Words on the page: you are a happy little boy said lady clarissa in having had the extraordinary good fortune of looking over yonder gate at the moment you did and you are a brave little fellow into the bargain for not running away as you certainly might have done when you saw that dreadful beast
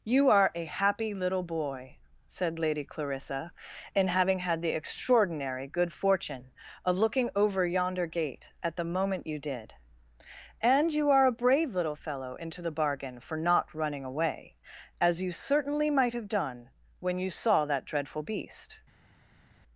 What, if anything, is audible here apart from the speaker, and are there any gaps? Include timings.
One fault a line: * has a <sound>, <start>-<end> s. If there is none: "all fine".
all fine